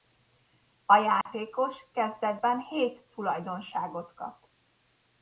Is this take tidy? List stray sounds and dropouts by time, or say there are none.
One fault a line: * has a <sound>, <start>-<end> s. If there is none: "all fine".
* has a dropout, 1.2-1.3 s